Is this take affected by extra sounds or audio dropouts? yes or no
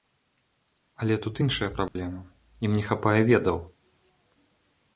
yes